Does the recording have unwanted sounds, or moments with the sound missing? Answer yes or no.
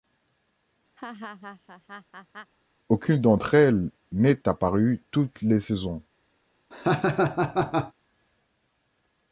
yes